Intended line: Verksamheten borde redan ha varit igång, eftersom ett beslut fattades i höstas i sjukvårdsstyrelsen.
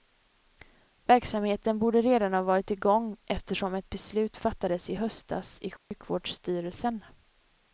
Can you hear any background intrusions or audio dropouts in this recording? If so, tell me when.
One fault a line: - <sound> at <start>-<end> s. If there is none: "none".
- dropout at 5.8-5.9 s